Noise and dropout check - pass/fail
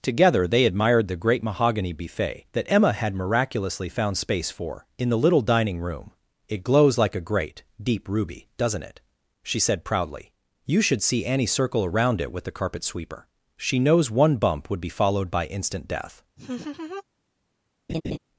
fail